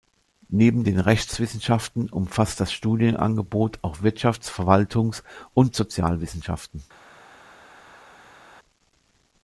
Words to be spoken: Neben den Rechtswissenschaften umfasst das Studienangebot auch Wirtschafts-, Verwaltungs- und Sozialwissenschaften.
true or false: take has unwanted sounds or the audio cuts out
false